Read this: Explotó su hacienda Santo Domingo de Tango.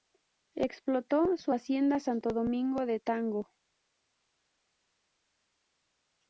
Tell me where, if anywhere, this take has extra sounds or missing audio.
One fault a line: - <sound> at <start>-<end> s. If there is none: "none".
none